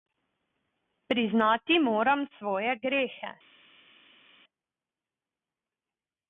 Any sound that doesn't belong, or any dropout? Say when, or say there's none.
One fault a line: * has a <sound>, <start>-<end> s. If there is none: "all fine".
all fine